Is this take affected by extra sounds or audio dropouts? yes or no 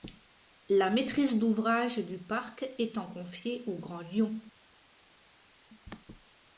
no